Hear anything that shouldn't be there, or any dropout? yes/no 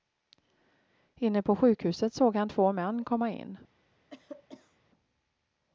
yes